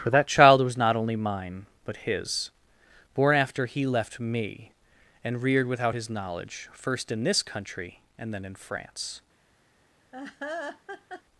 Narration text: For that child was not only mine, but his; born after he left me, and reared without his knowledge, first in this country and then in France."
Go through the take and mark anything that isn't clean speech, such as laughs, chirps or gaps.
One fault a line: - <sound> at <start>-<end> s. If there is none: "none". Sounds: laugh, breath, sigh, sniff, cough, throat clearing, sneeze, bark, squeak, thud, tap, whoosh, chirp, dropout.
- laugh at 10.1-11.2 s